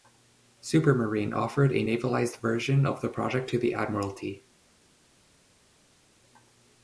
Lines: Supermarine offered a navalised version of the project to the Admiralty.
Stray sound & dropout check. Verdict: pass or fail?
pass